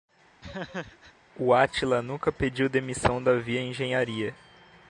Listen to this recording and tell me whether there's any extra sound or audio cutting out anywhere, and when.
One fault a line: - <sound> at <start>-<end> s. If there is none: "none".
- laugh at 0.4-1.1 s